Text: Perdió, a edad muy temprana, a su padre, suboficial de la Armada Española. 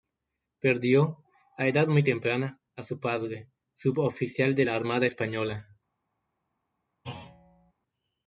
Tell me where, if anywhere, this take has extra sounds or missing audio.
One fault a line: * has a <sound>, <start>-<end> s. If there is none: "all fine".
* has a thud, 7.0-7.7 s